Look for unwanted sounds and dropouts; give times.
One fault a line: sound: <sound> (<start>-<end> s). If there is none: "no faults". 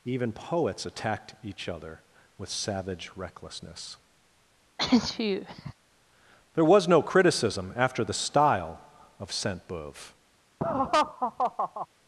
sound: sneeze (4.8-5.7 s)
sound: laugh (10.6-11.9 s)